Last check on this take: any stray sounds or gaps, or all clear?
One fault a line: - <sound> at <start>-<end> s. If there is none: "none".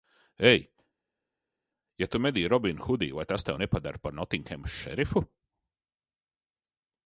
none